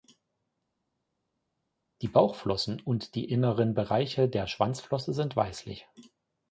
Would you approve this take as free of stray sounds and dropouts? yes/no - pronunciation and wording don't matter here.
yes